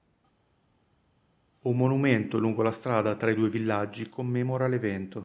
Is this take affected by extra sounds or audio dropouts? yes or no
no